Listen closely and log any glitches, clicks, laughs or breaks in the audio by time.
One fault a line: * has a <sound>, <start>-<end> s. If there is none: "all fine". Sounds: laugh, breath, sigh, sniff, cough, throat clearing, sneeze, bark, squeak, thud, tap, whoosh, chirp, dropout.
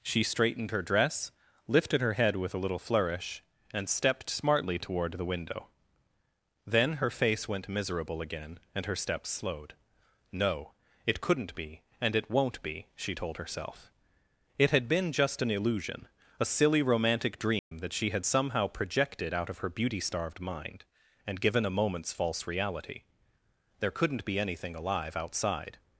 * has a dropout, 17.6-17.7 s